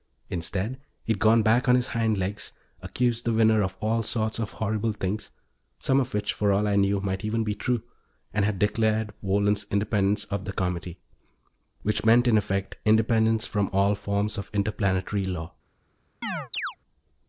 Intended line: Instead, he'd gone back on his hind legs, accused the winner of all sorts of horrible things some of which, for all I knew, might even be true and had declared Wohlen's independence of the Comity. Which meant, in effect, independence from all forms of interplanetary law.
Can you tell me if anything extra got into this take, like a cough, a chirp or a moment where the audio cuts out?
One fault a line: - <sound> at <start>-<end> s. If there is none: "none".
- chirp at 16.2-16.8 s